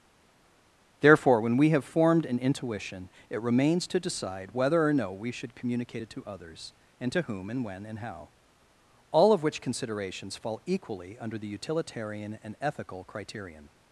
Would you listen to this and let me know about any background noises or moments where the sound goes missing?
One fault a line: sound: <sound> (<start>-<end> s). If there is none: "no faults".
no faults